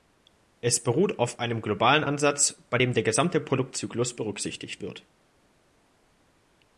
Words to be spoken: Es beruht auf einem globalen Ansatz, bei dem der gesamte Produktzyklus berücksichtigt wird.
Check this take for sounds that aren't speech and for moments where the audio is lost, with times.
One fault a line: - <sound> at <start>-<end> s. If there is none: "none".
none